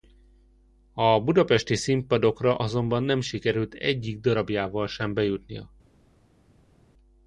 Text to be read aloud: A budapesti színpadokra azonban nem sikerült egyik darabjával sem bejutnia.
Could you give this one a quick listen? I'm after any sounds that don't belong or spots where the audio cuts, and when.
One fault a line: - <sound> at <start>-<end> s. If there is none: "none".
none